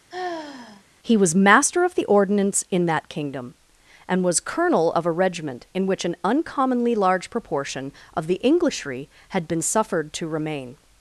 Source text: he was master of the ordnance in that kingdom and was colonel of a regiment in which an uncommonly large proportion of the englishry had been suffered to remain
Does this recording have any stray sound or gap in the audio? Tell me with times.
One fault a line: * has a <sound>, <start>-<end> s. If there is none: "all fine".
* has a sigh, 0.1-0.8 s